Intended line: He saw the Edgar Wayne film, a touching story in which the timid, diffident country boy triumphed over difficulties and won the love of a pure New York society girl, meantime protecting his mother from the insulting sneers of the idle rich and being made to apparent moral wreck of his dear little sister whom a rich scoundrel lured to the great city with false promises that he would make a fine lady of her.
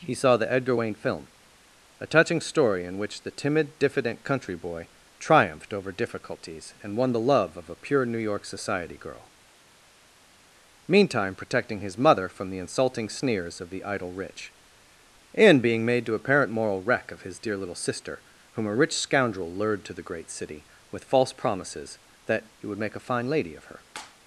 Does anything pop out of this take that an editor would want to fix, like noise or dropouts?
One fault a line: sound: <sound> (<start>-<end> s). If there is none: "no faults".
no faults